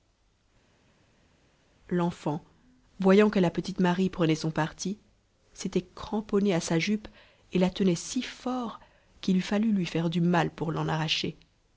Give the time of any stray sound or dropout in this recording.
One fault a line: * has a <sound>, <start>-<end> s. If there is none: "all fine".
all fine